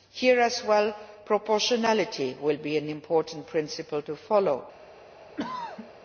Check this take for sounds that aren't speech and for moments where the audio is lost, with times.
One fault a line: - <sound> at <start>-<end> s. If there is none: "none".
- throat clearing at 5.4-5.9 s